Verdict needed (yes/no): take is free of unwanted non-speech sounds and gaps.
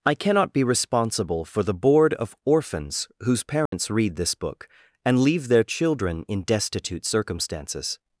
no